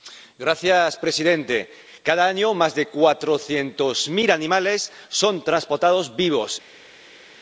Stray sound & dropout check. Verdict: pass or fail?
pass